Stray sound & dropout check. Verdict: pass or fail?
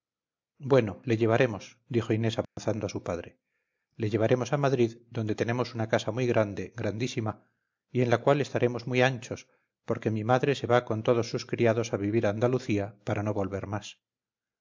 fail